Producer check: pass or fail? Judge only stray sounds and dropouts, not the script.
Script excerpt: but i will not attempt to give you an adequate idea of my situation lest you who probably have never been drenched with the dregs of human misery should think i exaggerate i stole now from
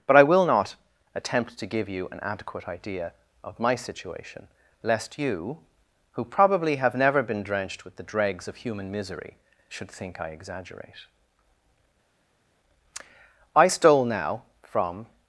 pass